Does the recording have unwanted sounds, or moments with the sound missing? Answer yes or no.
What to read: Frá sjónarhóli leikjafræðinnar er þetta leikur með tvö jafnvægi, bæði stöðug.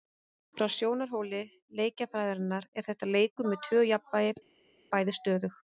no